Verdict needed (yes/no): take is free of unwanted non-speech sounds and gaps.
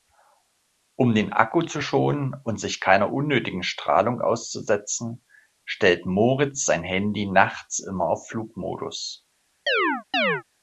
no